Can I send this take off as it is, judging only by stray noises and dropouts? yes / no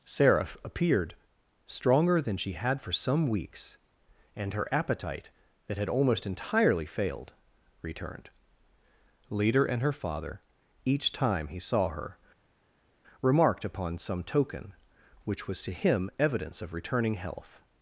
yes